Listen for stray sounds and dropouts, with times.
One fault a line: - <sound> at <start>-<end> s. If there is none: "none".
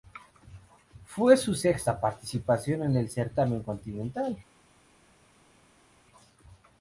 none